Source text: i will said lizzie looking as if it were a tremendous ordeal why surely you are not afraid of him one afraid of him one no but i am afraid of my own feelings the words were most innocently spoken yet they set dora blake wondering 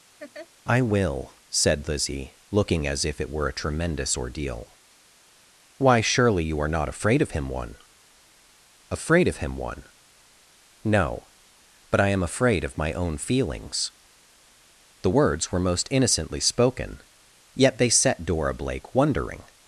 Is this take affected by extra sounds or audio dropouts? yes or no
yes